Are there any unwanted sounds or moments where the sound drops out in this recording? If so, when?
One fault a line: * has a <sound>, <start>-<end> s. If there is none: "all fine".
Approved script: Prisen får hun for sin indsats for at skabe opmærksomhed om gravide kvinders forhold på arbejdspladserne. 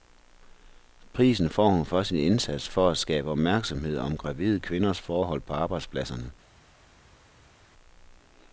all fine